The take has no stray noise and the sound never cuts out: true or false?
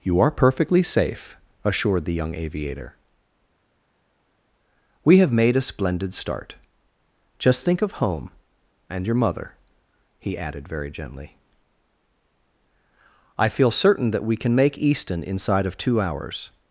true